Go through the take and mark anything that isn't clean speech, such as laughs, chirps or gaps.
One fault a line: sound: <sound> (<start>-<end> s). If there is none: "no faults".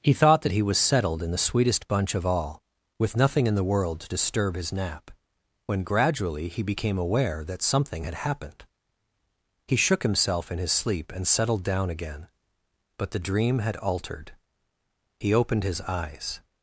no faults